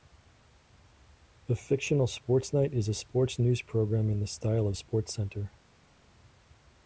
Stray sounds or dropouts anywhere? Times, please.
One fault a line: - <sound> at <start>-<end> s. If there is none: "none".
none